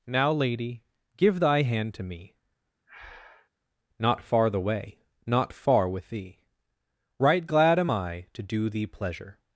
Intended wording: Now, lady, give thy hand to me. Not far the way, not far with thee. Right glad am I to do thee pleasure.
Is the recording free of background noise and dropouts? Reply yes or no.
no